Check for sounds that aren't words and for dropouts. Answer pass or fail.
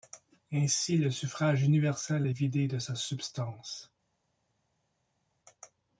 pass